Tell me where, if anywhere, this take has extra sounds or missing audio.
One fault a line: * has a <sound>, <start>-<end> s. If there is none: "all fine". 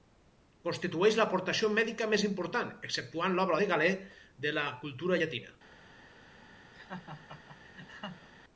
* has a laugh, 6.7-8.3 s